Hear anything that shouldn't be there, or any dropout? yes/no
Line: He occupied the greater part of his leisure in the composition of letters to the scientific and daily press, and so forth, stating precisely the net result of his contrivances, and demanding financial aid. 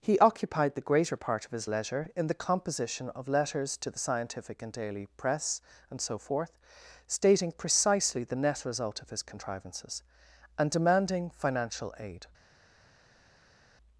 no